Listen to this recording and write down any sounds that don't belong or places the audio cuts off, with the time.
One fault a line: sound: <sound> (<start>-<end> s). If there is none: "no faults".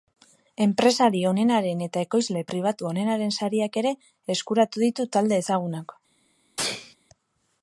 sound: sneeze (6.6-7.0 s)